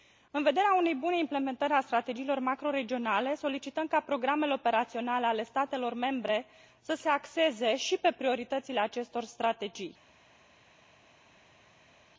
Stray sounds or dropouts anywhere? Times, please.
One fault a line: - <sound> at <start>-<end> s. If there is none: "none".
none